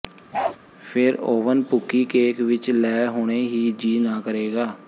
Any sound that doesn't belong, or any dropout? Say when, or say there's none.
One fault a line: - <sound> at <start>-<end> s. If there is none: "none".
- bark at 0.3-0.6 s